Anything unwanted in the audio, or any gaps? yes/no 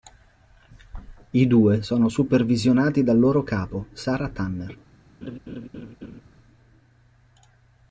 yes